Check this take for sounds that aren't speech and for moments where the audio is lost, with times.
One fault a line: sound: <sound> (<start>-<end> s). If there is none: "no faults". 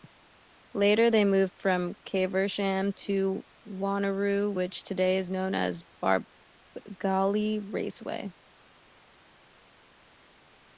no faults